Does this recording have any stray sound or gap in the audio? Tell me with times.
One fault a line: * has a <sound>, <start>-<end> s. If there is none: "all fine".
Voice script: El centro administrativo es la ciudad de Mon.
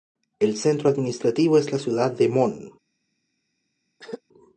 * has a throat clearing, 4.0-4.2 s